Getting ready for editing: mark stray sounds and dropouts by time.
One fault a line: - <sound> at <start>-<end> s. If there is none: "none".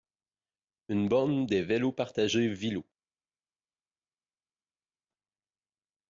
none